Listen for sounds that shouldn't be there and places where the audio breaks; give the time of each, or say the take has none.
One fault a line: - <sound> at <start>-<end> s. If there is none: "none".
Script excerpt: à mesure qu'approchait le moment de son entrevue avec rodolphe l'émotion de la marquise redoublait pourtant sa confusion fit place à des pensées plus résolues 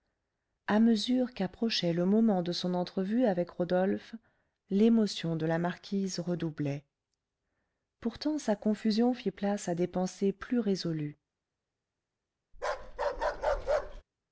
- bark at 12.5-14.0 s